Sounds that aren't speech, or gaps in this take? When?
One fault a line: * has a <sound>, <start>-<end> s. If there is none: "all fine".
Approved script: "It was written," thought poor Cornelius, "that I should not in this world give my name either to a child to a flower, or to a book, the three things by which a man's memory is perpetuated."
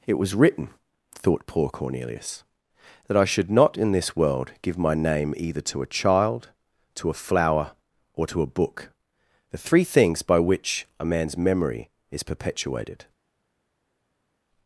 all fine